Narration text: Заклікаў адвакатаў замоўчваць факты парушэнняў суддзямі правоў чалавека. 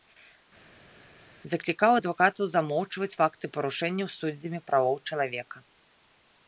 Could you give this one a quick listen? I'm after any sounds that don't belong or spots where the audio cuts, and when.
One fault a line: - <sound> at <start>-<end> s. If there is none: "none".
none